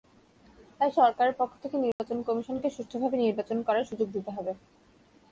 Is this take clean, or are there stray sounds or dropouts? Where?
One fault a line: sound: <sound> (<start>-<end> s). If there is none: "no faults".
sound: dropout (1.9-2.0 s)